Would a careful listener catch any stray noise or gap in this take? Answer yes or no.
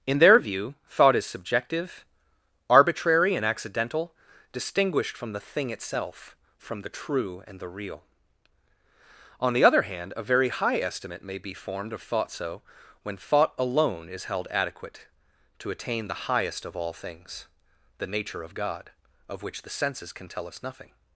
no